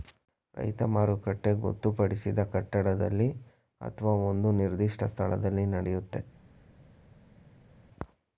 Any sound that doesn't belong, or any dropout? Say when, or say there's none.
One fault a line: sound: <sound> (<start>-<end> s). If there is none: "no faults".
no faults